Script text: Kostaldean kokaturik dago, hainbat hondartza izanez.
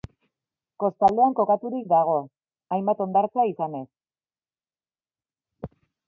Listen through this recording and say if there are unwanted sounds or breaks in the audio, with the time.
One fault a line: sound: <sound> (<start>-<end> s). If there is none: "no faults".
no faults